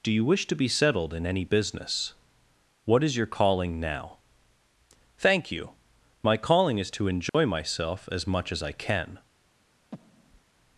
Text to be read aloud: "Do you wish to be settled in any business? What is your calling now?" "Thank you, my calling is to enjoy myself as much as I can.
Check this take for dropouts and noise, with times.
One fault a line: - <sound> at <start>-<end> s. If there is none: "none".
- dropout at 7.3-7.3 s
- breath at 9.9-10.4 s